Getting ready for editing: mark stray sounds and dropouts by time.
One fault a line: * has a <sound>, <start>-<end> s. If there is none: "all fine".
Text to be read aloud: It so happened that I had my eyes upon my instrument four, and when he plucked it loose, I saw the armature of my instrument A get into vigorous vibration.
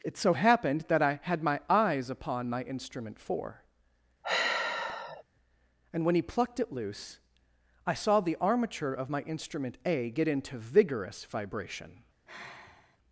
* has a sigh, 4.2-5.2 s
* has a sigh, 12.3-13.0 s